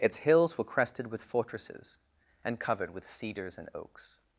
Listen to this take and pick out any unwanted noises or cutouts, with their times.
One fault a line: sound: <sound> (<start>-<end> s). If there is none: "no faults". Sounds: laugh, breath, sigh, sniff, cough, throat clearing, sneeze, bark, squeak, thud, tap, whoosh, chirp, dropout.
no faults